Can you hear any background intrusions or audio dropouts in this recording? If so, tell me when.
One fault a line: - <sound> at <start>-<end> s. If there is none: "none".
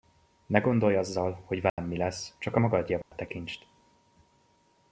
- dropout at 1.7-1.8 s
- dropout at 3.0-3.1 s